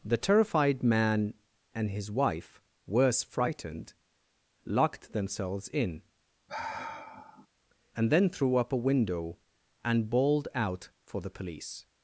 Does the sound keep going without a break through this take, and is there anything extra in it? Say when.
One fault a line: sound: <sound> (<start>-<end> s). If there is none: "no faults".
sound: sigh (6.5-7.5 s)